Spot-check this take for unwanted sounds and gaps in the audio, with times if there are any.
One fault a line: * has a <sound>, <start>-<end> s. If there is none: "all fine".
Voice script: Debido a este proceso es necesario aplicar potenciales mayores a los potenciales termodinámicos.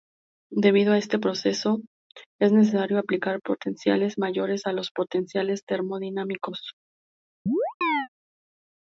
* has a chirp, 7.5-8.1 s